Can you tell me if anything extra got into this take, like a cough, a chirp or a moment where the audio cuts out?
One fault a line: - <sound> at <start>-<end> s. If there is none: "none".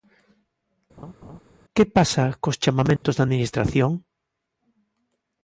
- laugh at 1.0-1.4 s
- dropout at 3.0-3.0 s